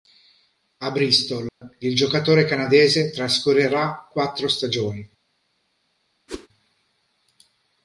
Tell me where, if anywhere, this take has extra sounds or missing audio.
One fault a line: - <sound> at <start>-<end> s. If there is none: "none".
- dropout at 1.5-1.6 s
- whoosh at 6.3-6.5 s